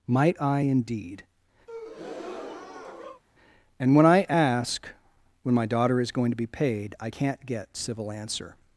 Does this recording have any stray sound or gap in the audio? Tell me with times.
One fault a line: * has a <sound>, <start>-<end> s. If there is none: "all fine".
* has a breath, 1.7-3.2 s